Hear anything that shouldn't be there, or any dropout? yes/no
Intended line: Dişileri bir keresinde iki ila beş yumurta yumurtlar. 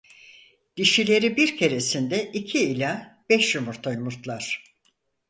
no